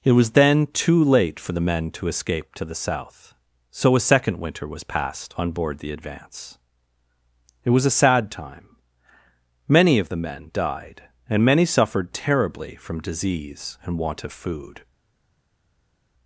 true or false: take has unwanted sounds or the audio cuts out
false